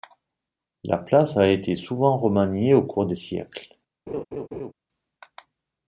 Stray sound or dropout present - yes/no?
yes